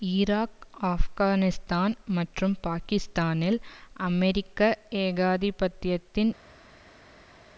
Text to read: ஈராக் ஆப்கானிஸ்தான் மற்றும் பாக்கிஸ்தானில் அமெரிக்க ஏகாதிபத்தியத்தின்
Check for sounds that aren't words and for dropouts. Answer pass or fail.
pass